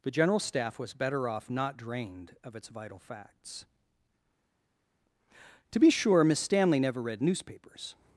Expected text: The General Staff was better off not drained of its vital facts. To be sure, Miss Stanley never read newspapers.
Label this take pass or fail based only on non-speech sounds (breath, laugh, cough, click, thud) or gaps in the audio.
pass